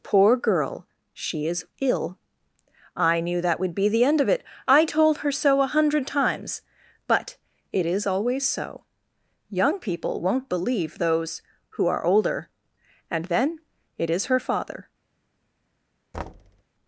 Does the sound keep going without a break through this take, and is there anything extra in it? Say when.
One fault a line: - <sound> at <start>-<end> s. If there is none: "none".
- thud at 16.1-16.6 s